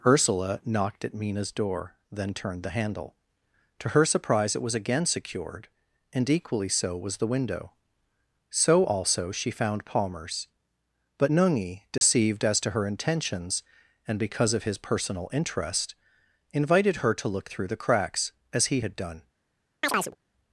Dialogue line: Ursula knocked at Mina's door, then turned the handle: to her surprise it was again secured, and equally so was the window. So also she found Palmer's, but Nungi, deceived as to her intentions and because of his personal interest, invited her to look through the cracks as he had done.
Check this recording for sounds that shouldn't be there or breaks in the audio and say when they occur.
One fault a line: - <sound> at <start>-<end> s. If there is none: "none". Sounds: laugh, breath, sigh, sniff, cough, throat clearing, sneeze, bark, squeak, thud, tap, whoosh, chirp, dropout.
- dropout at 12.0-12.0 s
- chirp at 19.8-20.2 s